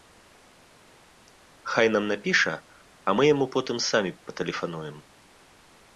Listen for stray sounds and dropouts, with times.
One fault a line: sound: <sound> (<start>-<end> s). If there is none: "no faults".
no faults